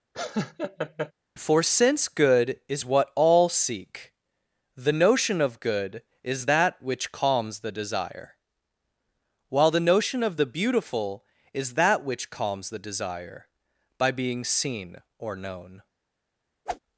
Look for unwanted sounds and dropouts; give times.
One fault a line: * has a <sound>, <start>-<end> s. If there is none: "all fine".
* has a laugh, 0.1-1.1 s
* has a whoosh, 16.7-16.8 s